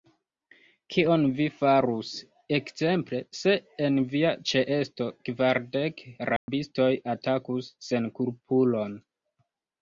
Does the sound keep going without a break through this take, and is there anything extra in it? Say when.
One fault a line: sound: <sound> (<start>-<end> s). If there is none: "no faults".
sound: dropout (6.4-6.5 s)